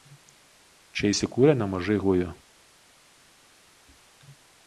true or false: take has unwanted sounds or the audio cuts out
false